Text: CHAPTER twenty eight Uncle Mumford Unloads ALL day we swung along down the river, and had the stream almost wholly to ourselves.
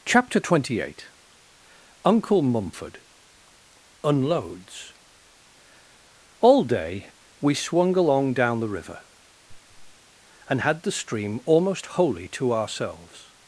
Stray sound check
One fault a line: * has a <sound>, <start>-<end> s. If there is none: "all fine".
* has a laugh, 9.5-10.0 s